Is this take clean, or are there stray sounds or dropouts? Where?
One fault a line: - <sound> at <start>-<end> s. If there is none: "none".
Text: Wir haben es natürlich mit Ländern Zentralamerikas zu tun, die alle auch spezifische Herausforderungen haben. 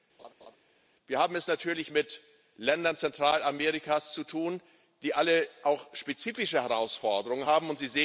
- laugh at 0.2-0.6 s